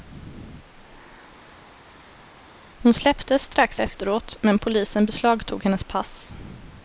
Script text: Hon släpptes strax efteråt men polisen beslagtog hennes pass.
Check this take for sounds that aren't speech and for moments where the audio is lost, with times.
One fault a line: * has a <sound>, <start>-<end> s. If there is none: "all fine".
all fine